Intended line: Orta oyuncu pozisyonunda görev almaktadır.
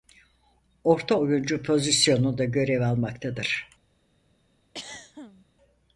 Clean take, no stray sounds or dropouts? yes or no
no